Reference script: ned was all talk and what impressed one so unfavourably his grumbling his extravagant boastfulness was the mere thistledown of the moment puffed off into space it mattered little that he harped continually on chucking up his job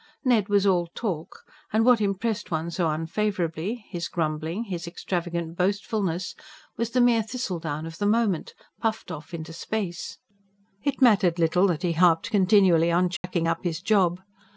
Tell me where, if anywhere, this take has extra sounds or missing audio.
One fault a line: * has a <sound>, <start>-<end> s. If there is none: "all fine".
* has a dropout, 13.2-13.2 s